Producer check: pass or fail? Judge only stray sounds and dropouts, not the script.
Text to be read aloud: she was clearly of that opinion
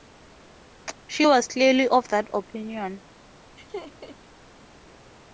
fail